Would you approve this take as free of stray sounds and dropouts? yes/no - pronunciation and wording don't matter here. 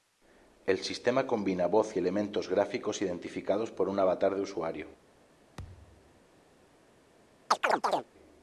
no